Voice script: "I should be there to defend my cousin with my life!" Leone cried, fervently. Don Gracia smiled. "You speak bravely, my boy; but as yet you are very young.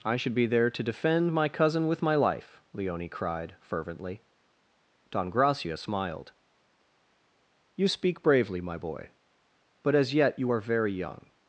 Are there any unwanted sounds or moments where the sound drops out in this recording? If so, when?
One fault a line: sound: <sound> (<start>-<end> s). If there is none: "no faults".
no faults